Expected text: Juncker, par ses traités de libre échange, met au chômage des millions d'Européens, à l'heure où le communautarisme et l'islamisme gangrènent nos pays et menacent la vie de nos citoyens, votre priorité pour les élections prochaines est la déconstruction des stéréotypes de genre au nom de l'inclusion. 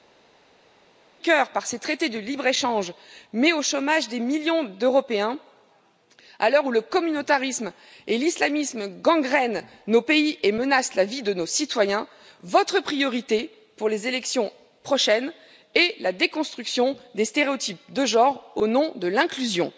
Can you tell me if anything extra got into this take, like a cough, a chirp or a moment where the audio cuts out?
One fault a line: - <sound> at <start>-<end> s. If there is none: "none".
none